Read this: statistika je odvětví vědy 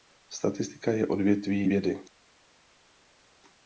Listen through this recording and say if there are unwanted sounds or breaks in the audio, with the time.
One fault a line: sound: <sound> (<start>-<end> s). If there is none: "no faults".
no faults